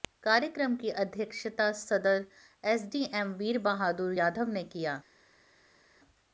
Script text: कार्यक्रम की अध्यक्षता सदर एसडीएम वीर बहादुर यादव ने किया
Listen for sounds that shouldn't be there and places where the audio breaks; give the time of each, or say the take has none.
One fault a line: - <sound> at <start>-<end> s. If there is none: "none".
none